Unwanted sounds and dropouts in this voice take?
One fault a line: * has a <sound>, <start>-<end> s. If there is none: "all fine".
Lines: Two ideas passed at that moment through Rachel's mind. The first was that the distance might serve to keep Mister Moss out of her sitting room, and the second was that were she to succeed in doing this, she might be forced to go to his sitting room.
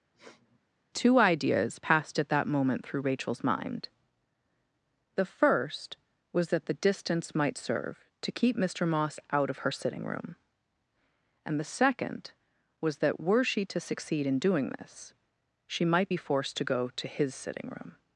* has a sniff, 0.1-0.6 s